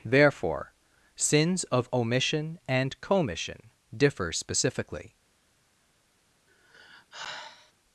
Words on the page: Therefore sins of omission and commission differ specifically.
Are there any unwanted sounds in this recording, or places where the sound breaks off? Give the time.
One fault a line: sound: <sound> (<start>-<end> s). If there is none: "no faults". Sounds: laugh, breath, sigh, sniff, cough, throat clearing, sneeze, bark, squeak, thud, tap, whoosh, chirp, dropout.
sound: sigh (6.5-7.7 s)